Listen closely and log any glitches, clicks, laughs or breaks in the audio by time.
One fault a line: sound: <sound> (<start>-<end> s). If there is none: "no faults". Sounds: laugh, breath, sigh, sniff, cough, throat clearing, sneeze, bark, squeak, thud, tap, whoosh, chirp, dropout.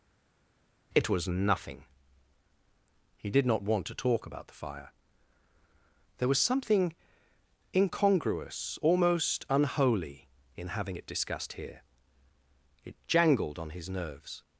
no faults